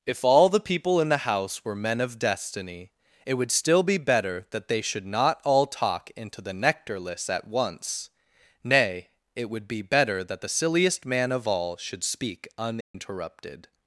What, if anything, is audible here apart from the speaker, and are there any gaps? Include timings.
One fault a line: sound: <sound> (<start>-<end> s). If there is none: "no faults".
sound: dropout (12.8-12.9 s)